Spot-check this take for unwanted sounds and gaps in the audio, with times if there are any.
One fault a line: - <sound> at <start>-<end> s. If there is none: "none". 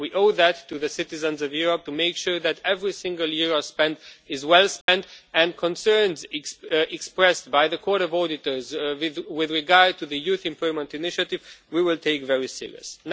- dropout at 4.8-4.9 s